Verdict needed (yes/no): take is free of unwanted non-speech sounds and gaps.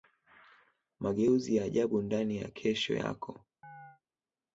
no